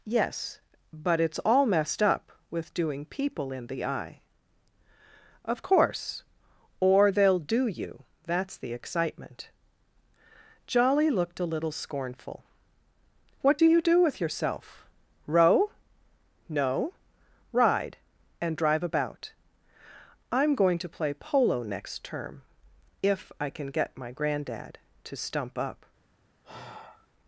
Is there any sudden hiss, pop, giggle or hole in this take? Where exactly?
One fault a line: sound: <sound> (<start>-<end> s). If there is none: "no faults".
sound: sigh (26.4-27.1 s)